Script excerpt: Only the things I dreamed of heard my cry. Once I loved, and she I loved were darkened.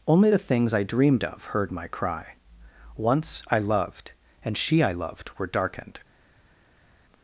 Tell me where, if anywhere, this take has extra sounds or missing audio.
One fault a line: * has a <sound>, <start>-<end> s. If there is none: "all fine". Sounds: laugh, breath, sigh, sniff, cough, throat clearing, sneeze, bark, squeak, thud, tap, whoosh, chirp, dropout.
all fine